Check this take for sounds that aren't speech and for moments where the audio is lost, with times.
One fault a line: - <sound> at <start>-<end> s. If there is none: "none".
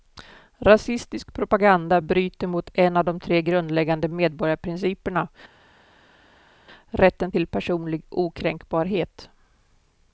none